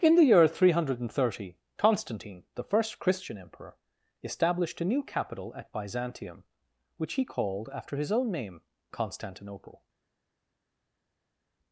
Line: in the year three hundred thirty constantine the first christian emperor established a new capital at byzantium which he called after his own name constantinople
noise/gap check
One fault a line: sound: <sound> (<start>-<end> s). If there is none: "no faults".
no faults